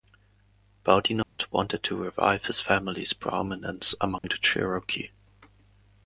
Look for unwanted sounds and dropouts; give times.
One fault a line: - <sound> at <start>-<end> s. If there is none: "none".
- dropout at 1.2-1.4 s
- dropout at 4.2-4.2 s